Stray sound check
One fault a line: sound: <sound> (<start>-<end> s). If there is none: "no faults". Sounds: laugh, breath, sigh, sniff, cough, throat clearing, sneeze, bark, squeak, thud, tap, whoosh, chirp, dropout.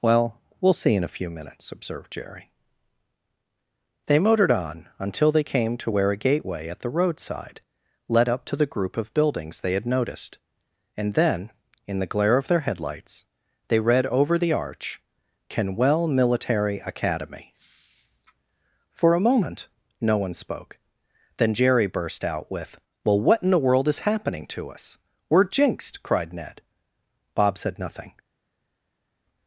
no faults